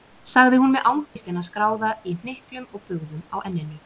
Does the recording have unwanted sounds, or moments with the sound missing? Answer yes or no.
yes